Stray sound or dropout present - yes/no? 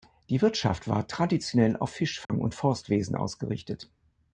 yes